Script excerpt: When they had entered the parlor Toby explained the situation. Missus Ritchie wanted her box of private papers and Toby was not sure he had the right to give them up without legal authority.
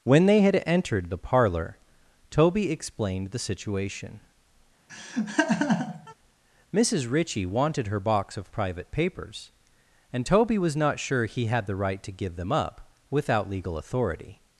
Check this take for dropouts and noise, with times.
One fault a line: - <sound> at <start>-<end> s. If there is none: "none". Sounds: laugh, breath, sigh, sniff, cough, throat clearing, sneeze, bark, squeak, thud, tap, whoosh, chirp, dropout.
- laugh at 4.9-6.1 s